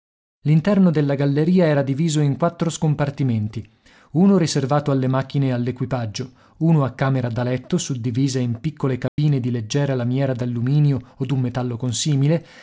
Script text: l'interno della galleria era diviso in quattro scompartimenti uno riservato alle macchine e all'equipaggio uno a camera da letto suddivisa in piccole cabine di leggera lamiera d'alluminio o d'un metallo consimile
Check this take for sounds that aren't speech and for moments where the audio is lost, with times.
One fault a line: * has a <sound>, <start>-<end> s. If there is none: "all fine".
* has a dropout, 9.1-9.2 s